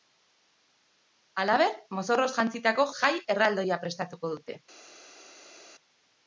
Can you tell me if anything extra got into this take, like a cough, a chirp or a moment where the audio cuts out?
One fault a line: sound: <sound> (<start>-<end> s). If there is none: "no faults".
no faults